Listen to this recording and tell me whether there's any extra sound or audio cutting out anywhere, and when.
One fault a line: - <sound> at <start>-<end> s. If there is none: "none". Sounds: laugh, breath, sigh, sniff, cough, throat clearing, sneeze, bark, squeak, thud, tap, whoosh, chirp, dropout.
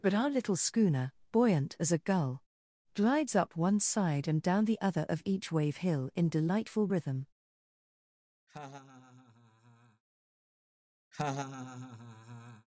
- laugh at 8.5-10.0 s
- laugh at 11.1-12.7 s